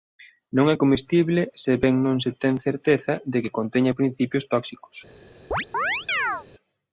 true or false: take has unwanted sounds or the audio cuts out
true